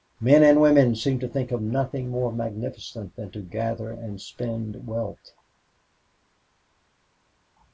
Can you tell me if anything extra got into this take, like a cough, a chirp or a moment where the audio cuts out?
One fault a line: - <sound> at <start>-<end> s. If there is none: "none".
none